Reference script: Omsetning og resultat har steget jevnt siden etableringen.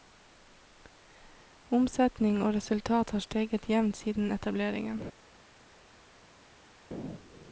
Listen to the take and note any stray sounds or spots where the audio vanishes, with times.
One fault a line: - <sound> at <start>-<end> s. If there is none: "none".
none